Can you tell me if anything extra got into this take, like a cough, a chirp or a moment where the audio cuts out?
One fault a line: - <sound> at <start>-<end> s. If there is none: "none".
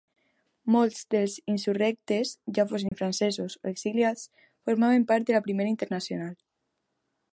- dropout at 2.9-2.9 s